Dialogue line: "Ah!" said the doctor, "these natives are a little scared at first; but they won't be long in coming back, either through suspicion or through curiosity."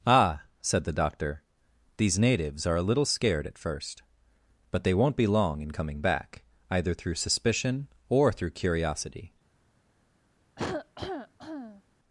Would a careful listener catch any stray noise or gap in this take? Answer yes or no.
yes